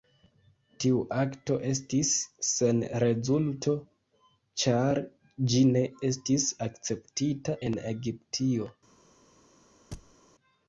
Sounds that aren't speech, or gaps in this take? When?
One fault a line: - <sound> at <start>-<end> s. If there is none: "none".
- thud at 9.9-10.2 s